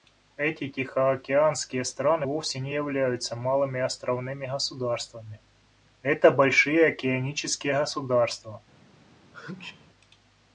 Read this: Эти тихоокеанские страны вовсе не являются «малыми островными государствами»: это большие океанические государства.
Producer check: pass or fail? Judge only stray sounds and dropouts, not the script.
fail